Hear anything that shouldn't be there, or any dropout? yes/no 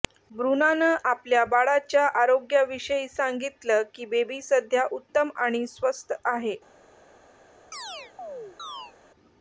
yes